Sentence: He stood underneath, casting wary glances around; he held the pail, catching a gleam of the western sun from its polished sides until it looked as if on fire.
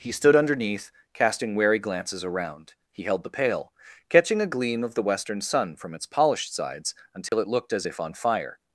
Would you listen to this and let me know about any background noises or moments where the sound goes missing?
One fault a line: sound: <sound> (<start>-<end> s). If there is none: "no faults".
sound: dropout (7.3-7.3 s)